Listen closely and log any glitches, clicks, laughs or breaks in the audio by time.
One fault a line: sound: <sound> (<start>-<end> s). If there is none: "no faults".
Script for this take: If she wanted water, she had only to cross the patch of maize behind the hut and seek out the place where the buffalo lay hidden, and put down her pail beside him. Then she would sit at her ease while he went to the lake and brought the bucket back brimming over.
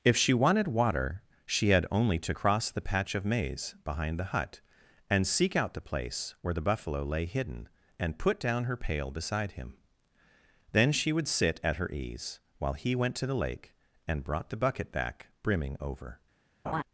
sound: laugh (16.6-16.8 s)